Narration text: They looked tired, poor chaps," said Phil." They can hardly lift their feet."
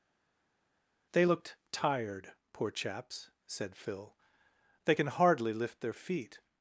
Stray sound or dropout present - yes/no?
no